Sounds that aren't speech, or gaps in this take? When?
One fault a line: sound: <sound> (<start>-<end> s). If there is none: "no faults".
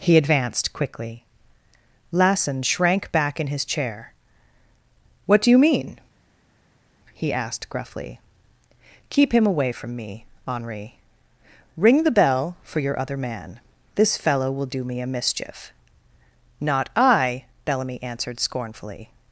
no faults